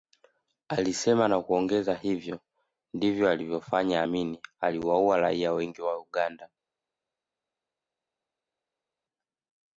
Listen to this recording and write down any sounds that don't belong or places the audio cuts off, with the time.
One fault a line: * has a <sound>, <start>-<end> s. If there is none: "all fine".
all fine